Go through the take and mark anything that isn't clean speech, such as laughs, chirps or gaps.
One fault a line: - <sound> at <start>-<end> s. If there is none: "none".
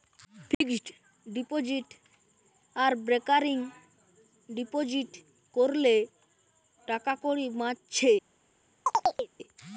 - dropout at 0.5-0.6 s
- chirp at 8.9-9.3 s